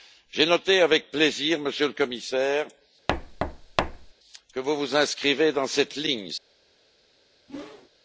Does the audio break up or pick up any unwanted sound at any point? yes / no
yes